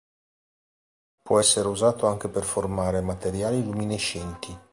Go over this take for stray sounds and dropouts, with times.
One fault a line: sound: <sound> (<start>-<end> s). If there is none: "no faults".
no faults